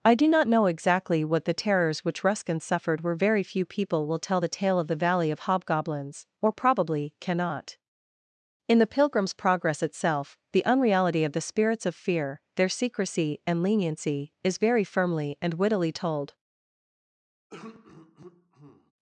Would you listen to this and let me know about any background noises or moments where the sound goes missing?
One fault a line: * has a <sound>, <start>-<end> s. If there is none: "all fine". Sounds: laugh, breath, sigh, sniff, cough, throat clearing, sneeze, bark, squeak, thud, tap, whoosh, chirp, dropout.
* has a throat clearing, 17.5-18.9 s